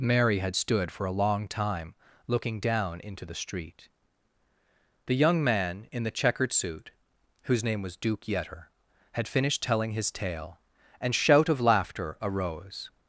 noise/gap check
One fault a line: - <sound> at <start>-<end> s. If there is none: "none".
none